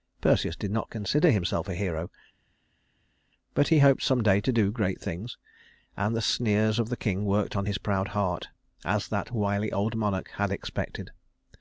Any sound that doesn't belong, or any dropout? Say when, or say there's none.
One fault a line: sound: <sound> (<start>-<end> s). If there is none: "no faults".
no faults